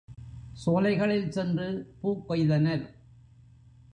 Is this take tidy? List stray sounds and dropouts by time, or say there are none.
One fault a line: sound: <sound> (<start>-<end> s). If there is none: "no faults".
no faults